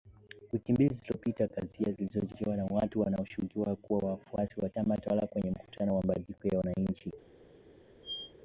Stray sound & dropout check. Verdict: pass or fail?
fail